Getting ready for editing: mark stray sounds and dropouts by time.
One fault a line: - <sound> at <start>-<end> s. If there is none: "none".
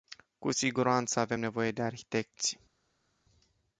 none